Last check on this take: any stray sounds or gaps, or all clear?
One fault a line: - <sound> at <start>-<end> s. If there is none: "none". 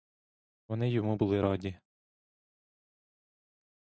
none